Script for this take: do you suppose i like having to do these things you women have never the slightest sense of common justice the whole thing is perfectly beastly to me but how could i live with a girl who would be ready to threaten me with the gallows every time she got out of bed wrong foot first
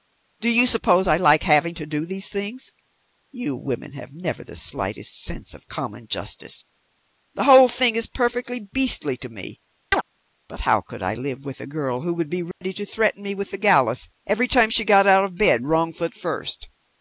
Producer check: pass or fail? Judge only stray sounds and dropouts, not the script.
fail